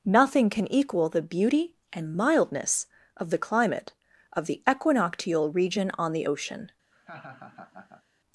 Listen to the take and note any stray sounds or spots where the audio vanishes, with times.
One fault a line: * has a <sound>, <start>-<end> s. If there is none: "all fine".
* has a laugh, 6.9-8.0 s